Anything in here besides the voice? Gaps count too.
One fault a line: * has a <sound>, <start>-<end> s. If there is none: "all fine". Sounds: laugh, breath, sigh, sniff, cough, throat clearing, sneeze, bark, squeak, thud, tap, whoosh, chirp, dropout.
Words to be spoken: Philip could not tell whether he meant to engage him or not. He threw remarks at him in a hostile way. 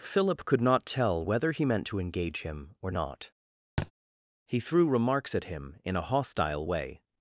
* has a thud, 3.8-3.9 s